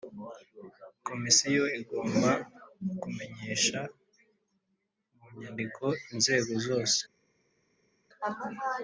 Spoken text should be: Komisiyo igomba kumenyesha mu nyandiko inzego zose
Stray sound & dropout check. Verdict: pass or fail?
pass